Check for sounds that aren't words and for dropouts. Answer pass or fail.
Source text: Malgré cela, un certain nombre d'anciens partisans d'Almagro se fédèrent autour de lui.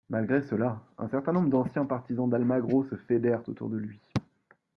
pass